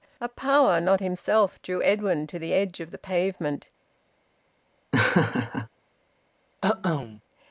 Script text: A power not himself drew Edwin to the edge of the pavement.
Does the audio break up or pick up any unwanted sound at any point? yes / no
yes